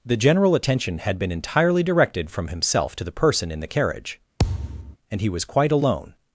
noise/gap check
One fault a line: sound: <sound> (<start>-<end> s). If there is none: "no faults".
sound: thud (4.4-5.0 s)